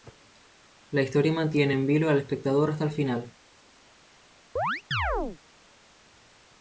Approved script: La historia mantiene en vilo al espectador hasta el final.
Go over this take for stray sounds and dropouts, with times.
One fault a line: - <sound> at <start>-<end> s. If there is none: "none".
- chirp at 4.6-5.4 s